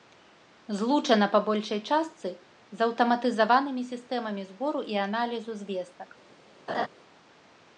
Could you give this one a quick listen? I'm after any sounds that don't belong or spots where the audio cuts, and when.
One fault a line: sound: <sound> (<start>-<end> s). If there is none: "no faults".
sound: laugh (6.7-6.9 s)